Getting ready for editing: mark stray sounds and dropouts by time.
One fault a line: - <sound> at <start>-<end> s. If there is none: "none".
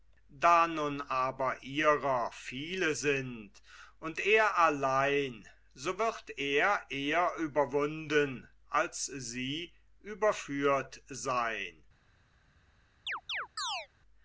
- chirp at 13.1-13.9 s